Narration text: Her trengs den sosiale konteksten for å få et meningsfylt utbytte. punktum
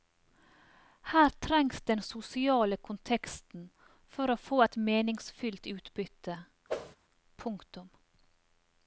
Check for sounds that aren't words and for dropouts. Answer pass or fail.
fail